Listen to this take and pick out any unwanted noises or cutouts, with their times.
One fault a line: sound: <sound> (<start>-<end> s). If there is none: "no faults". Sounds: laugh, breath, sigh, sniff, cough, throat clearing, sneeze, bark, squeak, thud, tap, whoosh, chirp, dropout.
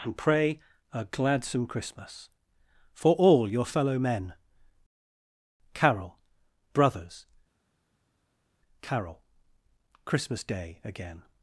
no faults